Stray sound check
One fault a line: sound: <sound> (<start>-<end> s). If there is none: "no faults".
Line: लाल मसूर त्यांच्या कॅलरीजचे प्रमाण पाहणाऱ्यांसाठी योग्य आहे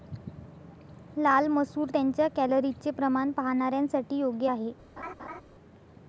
sound: laugh (5.0-5.4 s)